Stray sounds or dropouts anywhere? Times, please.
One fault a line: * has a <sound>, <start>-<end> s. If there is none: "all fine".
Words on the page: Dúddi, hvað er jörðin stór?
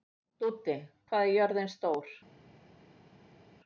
all fine